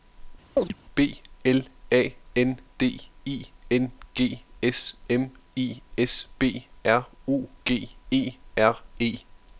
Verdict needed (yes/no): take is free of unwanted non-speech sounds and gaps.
no